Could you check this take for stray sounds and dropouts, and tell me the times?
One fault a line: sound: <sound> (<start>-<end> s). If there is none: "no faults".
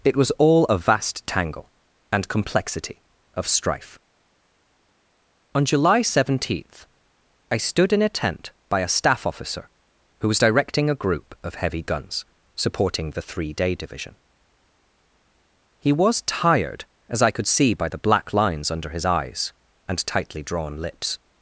no faults